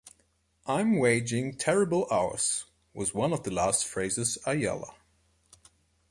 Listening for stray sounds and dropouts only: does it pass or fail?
pass